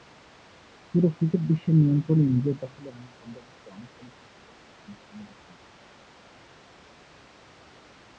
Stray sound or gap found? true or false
false